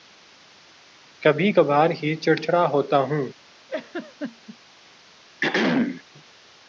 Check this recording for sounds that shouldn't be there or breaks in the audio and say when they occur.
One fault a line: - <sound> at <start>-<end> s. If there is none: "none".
- laugh at 3.7-4.6 s
- throat clearing at 5.4-6.0 s